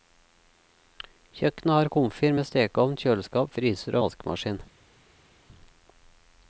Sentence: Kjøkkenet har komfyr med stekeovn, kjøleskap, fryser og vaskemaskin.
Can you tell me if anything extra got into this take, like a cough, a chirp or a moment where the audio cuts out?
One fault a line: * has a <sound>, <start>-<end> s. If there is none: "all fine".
all fine